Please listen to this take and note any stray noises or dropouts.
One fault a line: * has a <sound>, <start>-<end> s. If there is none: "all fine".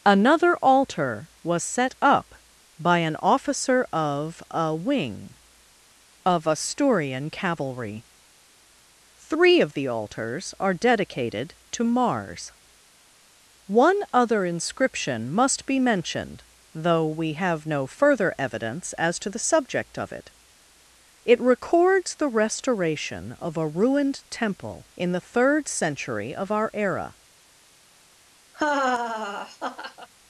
* has a laugh, 28.5-30.1 s